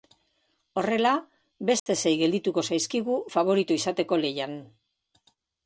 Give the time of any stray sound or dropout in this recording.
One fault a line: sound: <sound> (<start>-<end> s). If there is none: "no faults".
sound: dropout (1.8-1.9 s)